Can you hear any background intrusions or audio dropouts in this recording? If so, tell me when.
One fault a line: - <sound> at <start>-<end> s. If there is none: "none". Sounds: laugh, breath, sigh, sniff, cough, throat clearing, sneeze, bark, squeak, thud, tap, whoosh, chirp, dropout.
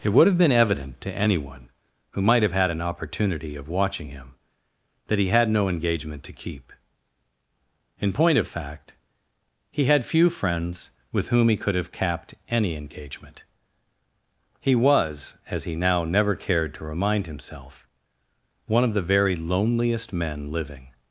none